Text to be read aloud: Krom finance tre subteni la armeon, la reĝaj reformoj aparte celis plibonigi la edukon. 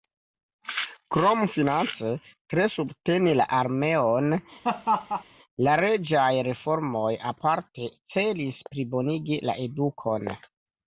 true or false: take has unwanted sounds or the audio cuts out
true